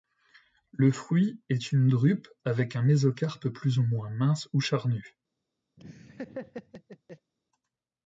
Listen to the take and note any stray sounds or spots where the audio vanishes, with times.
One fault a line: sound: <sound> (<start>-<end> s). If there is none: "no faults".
sound: laugh (5.8-7.3 s)